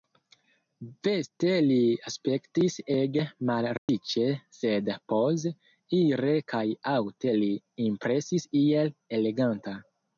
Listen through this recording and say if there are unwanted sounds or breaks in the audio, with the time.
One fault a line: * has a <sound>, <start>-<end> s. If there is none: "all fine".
* has a dropout, 3.8-3.9 s